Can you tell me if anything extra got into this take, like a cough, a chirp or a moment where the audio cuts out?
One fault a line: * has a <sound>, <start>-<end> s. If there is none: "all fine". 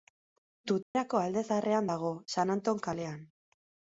* has a dropout, 0.8-0.9 s